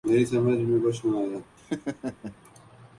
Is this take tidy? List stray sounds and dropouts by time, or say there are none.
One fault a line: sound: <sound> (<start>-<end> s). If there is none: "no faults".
sound: laugh (1.6-2.4 s)